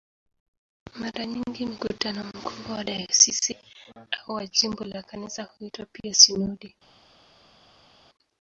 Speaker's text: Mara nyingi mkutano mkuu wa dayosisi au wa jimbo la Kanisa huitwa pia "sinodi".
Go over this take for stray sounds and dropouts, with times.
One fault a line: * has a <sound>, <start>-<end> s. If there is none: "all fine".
all fine